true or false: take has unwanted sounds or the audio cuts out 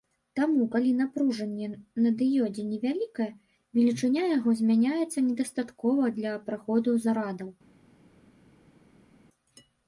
false